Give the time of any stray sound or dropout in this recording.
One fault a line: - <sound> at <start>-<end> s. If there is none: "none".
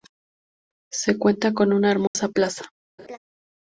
- dropout at 2.1-2.1 s
- laugh at 3.0-3.2 s